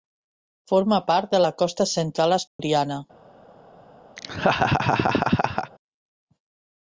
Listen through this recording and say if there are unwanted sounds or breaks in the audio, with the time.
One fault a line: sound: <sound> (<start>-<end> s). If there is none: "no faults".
sound: dropout (2.5-2.6 s)
sound: laugh (4.2-5.7 s)